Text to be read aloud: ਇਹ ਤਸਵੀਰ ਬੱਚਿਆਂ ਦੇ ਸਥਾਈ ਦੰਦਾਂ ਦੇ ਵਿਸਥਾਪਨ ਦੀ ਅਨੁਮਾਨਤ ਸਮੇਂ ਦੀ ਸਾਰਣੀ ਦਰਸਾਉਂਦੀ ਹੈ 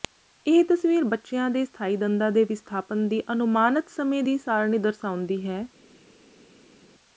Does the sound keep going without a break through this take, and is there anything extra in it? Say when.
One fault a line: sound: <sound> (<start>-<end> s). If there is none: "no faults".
no faults